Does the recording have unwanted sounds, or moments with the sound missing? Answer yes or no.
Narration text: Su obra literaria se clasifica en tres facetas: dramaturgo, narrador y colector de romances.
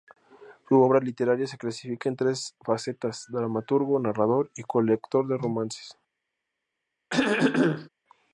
yes